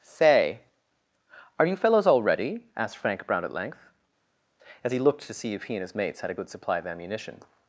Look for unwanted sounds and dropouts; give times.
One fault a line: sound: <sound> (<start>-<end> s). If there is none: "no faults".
no faults